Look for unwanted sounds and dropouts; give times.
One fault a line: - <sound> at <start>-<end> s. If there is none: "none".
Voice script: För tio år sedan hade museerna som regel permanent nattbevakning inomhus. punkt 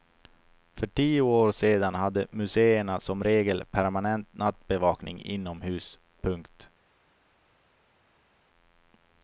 none